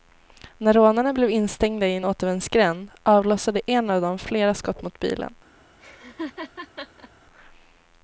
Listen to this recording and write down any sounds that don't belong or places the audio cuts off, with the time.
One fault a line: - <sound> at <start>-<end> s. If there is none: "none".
- laugh at 5.8-7.1 s